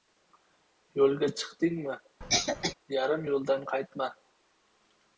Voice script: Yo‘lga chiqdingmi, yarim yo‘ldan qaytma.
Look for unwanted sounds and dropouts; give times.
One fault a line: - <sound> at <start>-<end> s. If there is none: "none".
- cough at 2.2-2.7 s